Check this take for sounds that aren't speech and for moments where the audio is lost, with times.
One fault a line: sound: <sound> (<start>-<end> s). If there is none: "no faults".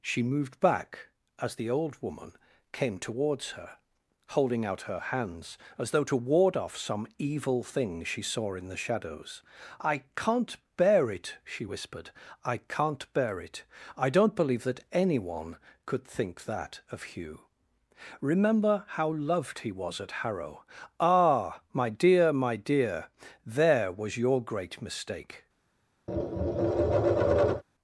sound: tap (26.1-27.6 s)